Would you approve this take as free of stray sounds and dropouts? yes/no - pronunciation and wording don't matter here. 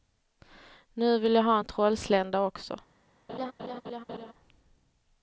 no